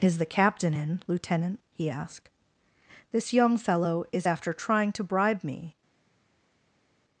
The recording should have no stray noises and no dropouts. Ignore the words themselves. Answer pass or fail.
pass